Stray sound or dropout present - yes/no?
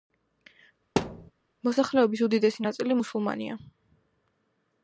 yes